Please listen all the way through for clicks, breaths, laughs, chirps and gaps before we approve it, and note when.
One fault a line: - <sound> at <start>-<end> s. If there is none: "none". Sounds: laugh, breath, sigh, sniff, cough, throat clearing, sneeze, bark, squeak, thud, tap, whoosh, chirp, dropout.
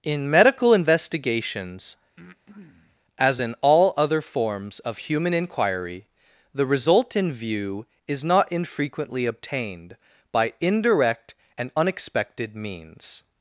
- breath at 2.2-3.0 s